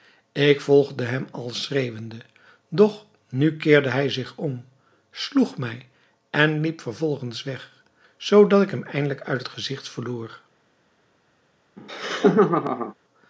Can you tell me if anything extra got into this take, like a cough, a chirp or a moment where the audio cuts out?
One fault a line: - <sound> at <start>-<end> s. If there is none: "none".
- laugh at 11.8-12.9 s